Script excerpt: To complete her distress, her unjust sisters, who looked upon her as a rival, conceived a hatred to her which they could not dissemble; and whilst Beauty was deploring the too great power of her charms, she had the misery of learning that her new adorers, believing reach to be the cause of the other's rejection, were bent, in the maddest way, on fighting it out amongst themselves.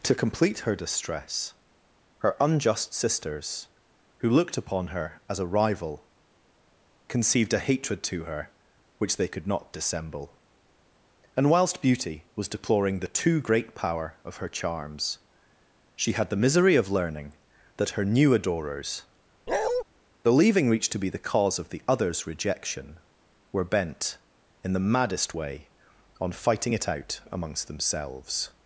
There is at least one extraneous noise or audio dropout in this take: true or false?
true